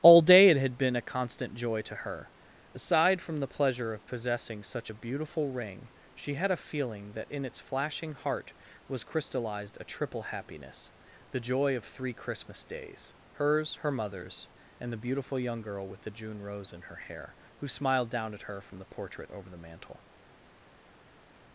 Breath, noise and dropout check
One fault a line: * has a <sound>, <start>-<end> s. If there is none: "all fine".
all fine